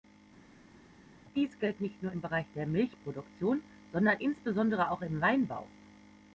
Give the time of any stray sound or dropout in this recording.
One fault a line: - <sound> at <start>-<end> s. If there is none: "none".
none